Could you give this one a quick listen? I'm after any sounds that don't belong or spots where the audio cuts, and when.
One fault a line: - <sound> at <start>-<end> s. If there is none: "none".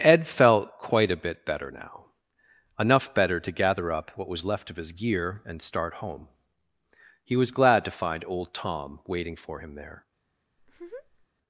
- laugh at 10.6-11.3 s